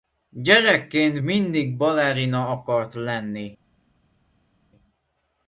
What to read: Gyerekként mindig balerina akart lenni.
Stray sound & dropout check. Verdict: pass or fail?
pass